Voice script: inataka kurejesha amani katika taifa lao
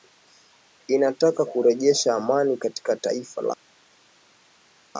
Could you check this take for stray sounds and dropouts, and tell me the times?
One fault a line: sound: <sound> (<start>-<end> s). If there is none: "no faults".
no faults